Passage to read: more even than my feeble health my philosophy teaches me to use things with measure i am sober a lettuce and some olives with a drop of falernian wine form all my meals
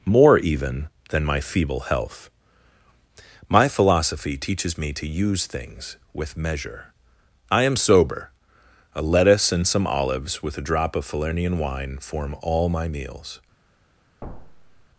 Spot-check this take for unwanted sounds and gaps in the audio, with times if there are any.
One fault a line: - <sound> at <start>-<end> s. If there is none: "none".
- thud at 14.2-14.9 s